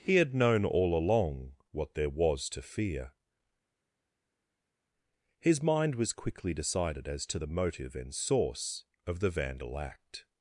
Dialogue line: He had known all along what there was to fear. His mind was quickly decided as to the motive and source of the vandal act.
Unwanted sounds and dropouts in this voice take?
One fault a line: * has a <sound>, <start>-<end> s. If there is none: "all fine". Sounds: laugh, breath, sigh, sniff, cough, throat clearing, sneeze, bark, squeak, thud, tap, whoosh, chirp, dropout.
all fine